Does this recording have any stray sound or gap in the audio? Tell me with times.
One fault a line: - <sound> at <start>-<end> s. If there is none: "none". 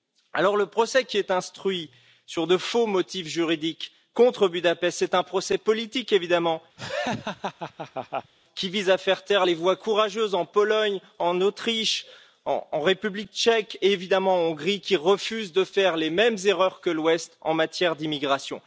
- laugh at 6.8-8.3 s